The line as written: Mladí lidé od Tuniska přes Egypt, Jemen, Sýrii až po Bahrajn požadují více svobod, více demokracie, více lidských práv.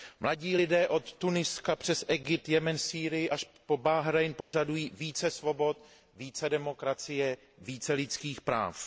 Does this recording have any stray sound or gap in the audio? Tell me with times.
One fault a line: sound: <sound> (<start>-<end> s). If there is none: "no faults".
sound: dropout (4.4-4.5 s)